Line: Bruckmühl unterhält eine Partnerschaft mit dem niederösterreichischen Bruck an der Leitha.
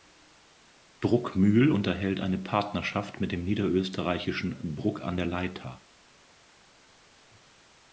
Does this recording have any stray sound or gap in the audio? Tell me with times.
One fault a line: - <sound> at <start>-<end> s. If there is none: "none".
none